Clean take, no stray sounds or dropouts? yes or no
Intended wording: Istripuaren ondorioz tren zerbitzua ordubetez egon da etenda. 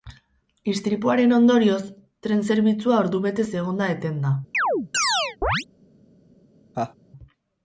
no